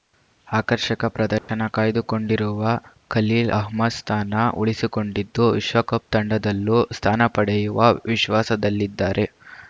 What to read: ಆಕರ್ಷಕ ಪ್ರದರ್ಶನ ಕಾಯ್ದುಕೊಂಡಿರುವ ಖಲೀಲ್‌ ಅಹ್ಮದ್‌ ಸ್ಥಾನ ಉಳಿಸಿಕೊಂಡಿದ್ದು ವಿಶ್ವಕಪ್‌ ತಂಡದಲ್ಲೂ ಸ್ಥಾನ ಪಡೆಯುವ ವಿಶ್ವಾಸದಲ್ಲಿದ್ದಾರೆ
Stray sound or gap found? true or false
true